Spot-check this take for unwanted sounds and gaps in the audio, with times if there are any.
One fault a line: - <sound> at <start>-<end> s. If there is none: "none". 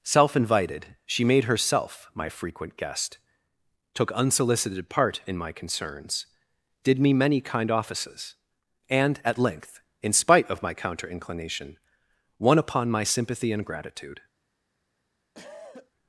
- cough at 15.3-15.9 s